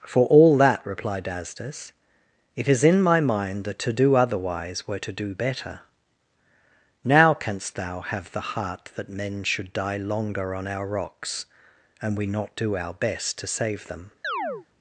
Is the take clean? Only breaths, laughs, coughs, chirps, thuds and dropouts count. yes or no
no